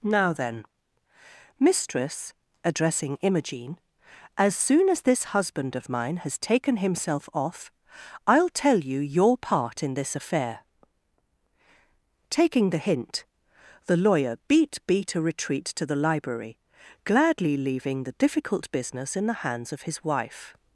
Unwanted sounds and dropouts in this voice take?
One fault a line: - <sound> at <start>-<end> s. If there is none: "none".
none